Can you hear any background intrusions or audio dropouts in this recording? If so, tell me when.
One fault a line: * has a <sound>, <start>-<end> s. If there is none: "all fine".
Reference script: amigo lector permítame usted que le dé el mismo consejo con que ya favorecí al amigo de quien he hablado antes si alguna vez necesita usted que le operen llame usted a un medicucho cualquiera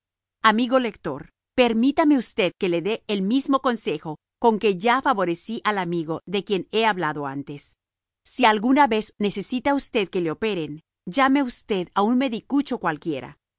all fine